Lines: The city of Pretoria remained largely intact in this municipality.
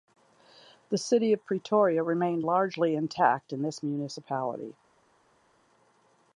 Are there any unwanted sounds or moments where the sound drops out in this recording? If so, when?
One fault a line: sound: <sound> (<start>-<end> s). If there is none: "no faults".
no faults